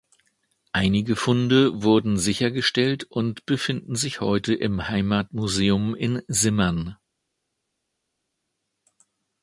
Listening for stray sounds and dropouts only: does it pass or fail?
pass